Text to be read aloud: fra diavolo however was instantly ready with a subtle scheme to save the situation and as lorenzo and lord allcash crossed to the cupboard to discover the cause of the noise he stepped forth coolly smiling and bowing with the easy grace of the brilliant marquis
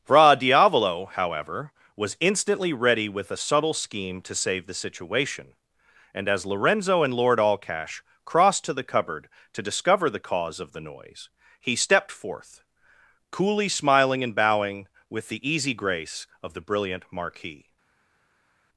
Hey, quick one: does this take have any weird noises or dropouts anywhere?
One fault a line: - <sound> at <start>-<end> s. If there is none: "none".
none